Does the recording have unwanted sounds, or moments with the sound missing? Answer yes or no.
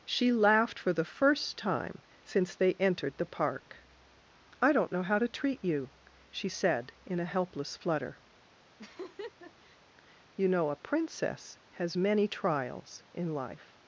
yes